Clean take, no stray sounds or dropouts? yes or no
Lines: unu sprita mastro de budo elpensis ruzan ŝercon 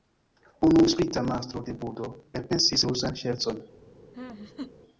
no